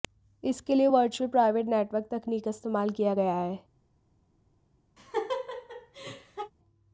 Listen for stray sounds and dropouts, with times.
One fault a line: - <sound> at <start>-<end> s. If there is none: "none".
- laugh at 5.0-6.5 s